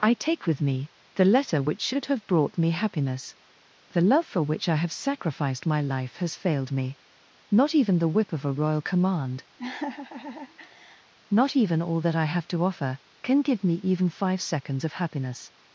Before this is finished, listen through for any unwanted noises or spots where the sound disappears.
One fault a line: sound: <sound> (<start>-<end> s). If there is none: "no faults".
sound: laugh (9.6-11.1 s)